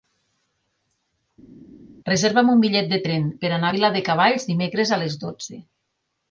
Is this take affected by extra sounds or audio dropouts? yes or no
no